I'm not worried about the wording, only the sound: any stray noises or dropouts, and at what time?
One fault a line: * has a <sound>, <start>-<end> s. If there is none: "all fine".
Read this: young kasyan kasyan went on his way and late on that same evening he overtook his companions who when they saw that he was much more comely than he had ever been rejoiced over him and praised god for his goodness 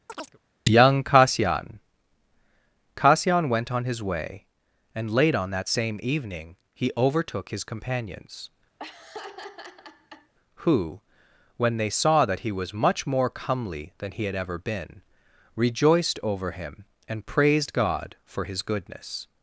* has a chirp, 0.1-0.4 s
* has a laugh, 8.8-10.3 s